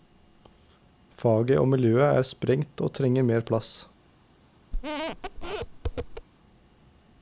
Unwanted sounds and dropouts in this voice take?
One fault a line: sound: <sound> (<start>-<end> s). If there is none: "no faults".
sound: squeak (4.7-6.3 s)